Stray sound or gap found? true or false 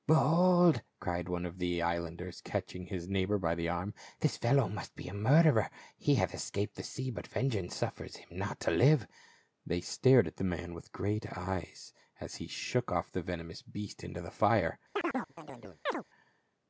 true